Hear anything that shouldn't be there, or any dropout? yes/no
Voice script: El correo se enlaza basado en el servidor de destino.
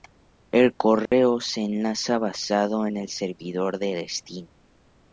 yes